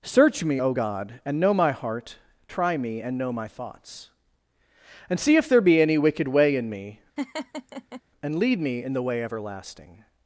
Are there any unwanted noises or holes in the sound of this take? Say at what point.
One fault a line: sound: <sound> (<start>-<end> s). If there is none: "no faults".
sound: laugh (7.2-8.0 s)